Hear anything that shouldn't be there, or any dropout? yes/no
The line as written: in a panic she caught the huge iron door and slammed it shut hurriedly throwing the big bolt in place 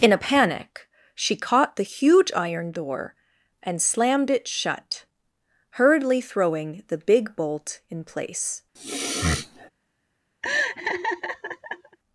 yes